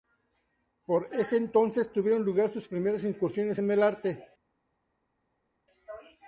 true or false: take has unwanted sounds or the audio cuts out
false